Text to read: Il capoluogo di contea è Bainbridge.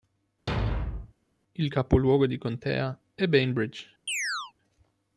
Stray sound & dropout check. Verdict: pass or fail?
fail